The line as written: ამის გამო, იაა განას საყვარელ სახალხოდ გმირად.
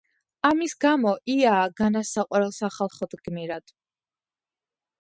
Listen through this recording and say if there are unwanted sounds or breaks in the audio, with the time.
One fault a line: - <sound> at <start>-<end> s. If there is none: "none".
none